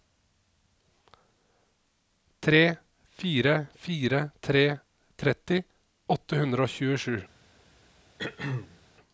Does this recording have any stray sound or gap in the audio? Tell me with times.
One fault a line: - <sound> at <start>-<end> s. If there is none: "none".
- throat clearing at 8.2-8.8 s